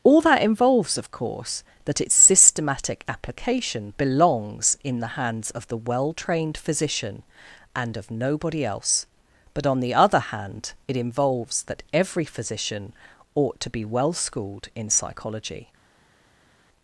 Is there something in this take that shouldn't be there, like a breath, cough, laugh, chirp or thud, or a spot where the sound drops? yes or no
no